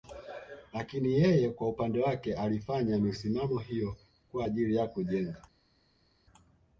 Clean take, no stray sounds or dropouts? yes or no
yes